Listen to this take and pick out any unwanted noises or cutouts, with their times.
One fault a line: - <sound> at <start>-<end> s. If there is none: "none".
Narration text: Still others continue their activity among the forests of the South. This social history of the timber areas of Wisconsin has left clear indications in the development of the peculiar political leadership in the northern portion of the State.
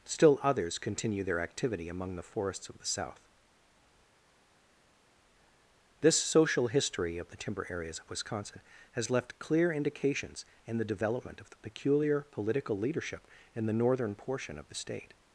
none